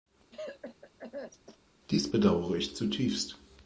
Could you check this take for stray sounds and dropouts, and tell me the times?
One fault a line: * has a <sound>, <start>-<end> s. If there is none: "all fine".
* has a cough, 0.3-1.6 s